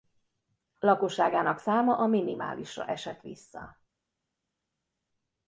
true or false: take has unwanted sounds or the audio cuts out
false